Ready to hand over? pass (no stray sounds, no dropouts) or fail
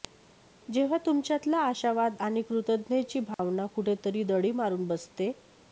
fail